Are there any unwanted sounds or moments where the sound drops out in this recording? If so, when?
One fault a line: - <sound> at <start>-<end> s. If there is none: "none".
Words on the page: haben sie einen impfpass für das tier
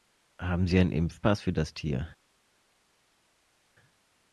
none